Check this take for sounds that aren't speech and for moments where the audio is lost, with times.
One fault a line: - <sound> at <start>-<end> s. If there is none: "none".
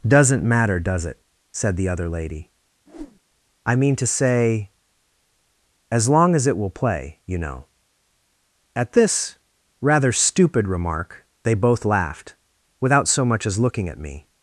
- whoosh at 2.9-3.2 s